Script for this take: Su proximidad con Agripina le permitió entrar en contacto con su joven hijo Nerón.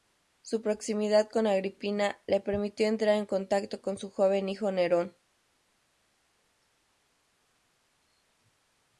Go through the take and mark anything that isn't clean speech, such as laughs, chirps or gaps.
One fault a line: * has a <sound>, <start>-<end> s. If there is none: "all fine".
all fine